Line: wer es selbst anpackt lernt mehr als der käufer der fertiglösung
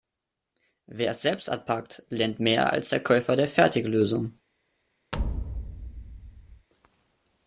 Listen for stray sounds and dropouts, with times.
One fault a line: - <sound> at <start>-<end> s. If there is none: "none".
- thud at 5.1-6.7 s